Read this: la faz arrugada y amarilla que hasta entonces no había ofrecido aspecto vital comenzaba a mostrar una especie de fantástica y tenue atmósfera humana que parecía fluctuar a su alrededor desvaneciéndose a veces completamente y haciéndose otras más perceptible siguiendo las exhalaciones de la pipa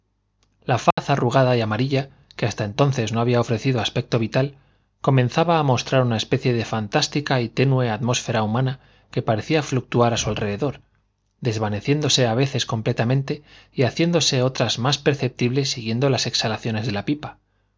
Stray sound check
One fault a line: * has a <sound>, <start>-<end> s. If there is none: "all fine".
* has a dropout, 0.9-1.0 s